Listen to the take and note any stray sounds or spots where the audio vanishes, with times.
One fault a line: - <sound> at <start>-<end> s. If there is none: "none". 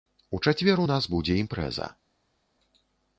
none